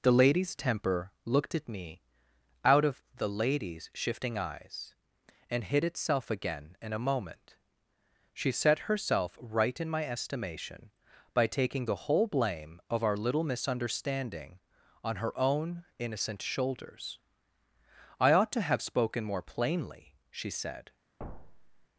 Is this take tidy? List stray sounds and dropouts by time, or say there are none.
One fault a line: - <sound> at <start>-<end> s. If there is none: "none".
- thud at 21.2-21.9 s